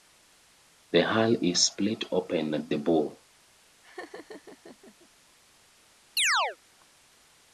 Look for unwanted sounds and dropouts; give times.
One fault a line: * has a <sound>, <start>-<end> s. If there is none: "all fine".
* has a laugh, 3.8-5.1 s
* has a chirp, 6.2-6.6 s